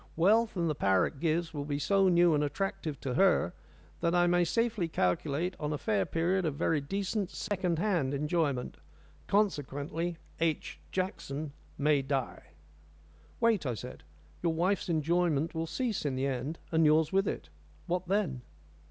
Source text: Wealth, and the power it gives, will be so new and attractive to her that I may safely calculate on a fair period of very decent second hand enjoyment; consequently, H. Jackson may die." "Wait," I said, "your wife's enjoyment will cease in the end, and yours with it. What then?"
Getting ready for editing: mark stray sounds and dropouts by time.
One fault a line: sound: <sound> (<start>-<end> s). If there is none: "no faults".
sound: dropout (7.5-7.5 s)